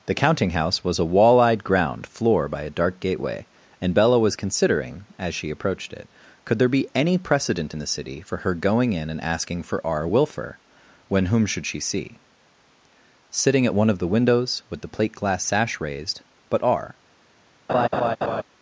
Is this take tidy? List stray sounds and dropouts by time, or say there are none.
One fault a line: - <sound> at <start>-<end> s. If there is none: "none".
- laugh at 17.7-18.4 s